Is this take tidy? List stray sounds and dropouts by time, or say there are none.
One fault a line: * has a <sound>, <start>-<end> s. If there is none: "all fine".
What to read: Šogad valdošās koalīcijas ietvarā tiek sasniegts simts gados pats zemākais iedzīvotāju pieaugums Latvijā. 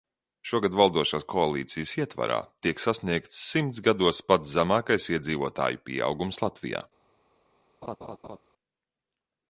* has a laugh, 7.8-8.4 s